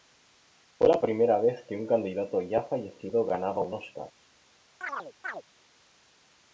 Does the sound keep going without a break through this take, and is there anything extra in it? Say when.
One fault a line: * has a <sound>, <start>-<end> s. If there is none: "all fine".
* has a chirp, 4.8-5.4 s